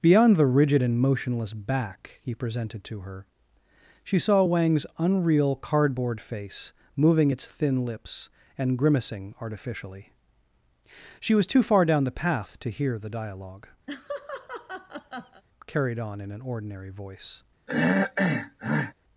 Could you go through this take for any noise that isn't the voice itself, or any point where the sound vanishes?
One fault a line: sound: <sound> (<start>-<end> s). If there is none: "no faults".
sound: laugh (13.9-15.4 s)
sound: throat clearing (17.7-18.9 s)